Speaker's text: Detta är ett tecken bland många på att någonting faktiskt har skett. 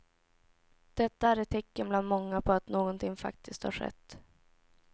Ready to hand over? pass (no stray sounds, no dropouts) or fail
pass